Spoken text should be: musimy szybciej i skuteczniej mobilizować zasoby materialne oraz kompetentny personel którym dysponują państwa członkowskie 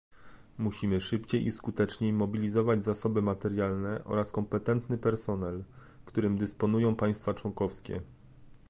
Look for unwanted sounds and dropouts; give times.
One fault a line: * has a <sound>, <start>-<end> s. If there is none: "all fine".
all fine